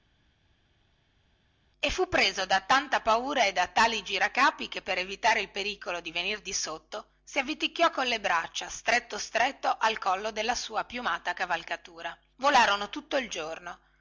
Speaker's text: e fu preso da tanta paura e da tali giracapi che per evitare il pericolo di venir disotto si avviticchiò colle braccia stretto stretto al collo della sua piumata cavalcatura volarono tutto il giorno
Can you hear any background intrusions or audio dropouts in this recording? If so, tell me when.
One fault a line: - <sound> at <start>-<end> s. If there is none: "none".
none